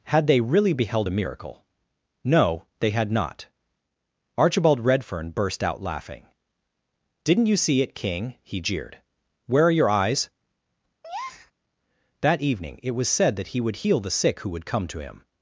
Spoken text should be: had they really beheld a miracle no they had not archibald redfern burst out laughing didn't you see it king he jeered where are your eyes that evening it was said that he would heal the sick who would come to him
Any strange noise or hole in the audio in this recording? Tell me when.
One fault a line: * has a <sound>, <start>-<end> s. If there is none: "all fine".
* has a breath, 11.0-11.5 s